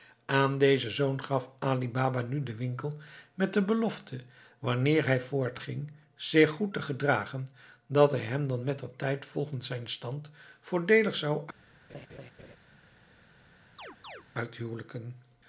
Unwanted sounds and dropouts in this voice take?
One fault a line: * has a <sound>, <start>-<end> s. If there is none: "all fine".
* has a laugh, 11.9-12.6 s
* has a chirp, 13.8-14.2 s